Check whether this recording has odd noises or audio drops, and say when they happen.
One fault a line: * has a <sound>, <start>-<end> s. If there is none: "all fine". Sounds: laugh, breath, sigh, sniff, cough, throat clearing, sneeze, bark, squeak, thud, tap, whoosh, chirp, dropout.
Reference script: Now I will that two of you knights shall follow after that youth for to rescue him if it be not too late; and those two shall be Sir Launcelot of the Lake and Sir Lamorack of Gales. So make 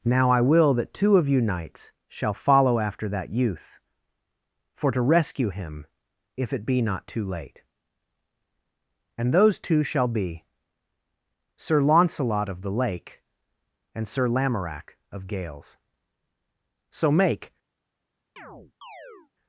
* has a chirp, 18.4-19.3 s